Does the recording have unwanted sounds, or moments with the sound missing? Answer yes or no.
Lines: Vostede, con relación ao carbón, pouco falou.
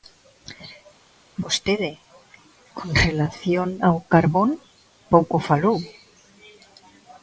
no